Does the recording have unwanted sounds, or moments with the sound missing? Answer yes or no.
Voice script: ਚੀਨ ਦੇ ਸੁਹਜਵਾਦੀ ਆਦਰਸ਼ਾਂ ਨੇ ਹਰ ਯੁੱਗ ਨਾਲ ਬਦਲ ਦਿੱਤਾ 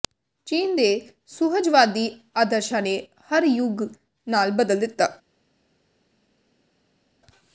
no